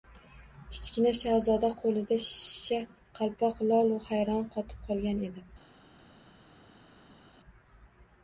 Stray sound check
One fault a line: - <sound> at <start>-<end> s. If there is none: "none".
none